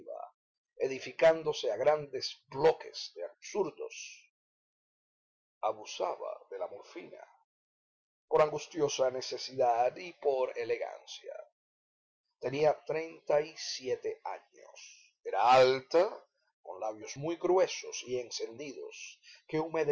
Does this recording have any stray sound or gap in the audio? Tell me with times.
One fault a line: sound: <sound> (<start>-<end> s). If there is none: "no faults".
no faults